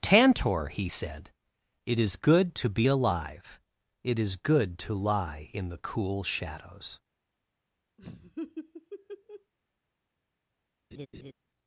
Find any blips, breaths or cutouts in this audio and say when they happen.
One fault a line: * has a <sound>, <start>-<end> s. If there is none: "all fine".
* has a laugh, 8.0-9.5 s
* has a laugh, 10.9-11.3 s